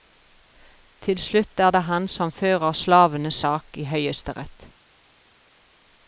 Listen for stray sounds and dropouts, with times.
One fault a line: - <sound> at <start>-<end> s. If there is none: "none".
none